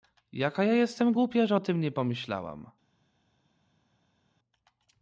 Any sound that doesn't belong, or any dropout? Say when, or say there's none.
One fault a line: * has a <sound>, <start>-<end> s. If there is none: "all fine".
all fine